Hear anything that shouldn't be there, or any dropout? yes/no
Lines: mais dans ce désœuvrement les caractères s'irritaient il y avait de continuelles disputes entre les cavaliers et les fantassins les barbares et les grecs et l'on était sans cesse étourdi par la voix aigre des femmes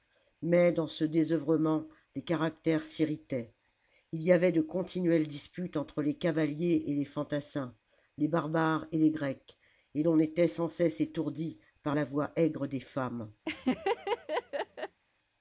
yes